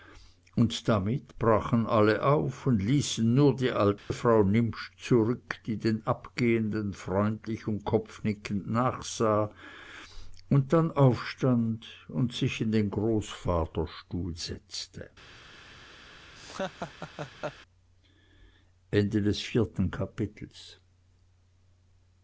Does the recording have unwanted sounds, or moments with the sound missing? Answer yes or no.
yes